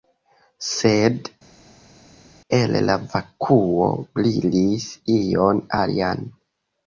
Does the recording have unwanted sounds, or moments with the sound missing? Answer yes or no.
no